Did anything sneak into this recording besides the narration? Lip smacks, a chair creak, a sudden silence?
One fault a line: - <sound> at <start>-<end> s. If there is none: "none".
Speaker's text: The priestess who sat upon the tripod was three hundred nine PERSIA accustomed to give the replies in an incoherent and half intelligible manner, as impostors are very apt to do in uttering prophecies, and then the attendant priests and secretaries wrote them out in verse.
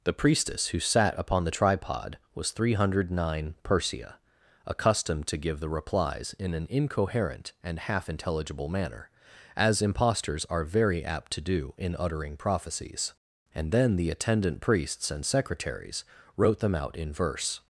none